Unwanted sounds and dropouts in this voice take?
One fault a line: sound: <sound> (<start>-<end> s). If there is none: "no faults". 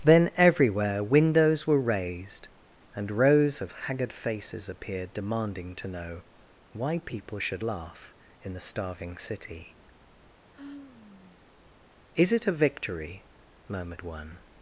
sound: sigh (10.5-11.4 s)